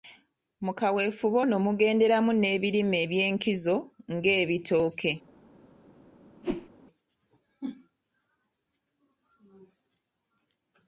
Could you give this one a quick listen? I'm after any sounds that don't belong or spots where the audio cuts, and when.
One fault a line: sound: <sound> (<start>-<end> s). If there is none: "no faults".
sound: whoosh (6.4-6.7 s)